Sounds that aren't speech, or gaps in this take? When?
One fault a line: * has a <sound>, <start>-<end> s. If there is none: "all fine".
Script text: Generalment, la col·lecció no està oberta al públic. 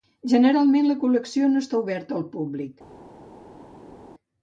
all fine